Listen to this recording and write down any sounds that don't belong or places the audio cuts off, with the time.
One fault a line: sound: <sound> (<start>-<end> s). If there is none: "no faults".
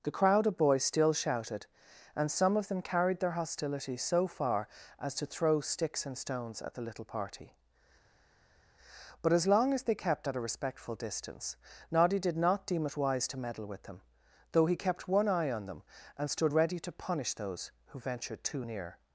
no faults